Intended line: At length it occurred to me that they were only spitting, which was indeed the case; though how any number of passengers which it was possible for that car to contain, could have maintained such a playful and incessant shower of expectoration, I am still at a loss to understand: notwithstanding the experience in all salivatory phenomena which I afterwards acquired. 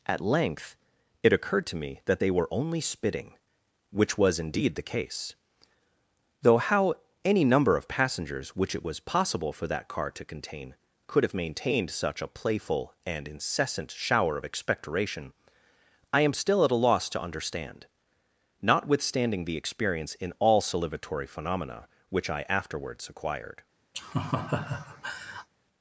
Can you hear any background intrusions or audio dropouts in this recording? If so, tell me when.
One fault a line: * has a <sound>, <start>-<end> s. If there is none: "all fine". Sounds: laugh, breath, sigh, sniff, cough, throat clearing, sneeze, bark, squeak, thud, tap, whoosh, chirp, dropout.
* has a laugh, 23.9-25.5 s